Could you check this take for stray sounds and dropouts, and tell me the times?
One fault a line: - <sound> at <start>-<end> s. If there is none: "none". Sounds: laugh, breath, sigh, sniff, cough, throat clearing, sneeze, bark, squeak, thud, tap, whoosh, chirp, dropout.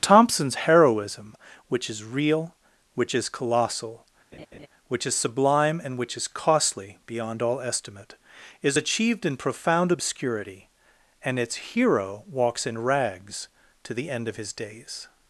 - laugh at 4.3-4.7 s